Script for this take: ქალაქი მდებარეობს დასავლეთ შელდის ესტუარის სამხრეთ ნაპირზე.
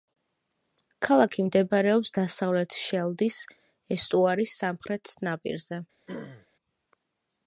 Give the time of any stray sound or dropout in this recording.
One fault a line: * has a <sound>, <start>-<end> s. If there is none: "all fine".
* has a throat clearing, 6.1-6.5 s